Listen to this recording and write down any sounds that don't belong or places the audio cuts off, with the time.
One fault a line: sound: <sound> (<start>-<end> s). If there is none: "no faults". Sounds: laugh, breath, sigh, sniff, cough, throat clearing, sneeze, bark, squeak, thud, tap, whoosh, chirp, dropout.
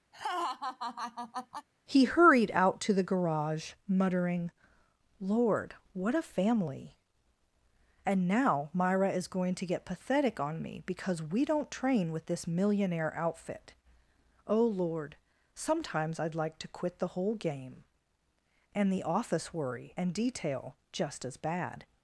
sound: laugh (0.1-1.7 s)